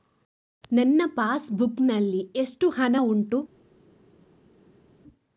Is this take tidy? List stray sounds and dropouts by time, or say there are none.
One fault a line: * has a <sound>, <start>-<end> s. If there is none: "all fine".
all fine